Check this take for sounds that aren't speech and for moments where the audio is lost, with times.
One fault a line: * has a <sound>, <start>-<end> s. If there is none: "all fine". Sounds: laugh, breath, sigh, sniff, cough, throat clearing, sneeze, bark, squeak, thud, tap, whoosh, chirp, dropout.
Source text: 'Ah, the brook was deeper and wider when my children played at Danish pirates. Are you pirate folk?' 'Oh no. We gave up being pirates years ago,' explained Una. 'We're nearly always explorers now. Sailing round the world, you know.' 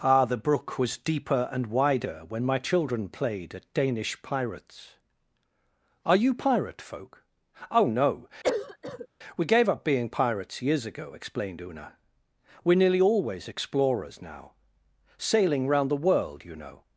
* has a cough, 8.4-9.1 s